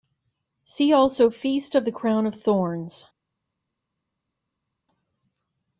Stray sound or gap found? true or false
false